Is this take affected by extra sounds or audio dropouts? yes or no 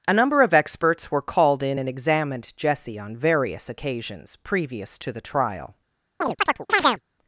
yes